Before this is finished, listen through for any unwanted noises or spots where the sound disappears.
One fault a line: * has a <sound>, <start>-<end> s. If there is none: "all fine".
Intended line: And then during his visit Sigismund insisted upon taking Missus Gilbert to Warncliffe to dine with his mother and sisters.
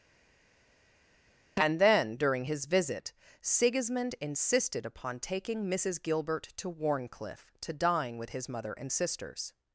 all fine